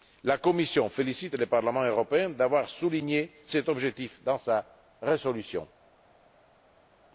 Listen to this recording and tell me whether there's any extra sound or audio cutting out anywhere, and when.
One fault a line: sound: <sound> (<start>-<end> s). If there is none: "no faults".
no faults